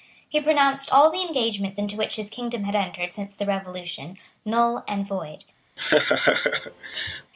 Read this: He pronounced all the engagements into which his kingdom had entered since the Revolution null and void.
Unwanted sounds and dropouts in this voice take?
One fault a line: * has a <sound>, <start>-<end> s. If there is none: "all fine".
* has a laugh, 5.8-7.3 s